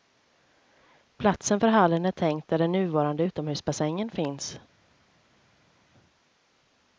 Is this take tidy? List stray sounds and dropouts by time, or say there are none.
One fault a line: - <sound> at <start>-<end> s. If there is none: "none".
none